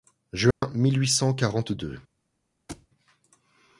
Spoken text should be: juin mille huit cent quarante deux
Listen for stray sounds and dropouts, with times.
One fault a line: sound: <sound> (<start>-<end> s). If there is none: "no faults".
sound: dropout (0.5-0.6 s)
sound: thud (2.7-2.9 s)